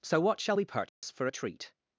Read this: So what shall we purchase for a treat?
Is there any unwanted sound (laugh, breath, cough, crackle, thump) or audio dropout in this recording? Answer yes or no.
yes